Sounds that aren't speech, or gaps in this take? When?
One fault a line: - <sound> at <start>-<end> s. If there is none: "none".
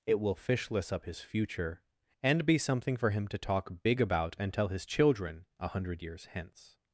none